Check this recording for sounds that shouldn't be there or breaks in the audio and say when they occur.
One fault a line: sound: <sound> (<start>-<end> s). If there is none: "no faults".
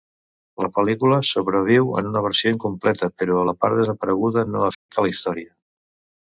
sound: dropout (4.7-4.9 s)